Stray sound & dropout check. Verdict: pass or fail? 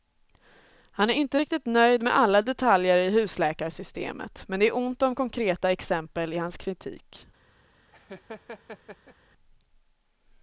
fail